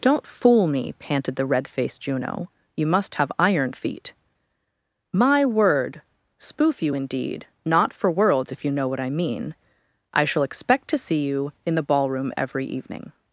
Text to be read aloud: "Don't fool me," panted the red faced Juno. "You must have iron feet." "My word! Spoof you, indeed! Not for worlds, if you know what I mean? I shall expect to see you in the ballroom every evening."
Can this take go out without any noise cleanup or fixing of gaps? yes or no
yes